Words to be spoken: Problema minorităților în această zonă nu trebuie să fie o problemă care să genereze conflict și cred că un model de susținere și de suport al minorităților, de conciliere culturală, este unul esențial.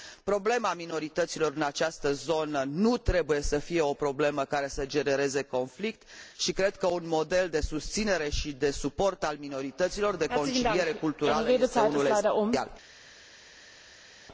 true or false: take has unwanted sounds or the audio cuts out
false